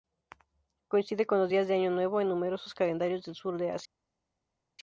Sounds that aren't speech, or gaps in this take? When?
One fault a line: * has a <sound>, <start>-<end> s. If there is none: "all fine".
all fine